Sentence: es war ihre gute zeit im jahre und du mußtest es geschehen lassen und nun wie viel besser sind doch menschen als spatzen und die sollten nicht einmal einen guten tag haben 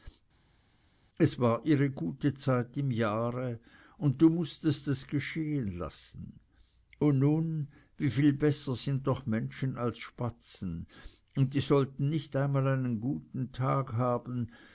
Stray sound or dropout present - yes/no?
no